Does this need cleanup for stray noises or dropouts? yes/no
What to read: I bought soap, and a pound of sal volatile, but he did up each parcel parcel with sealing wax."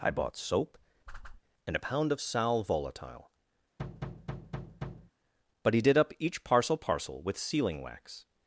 yes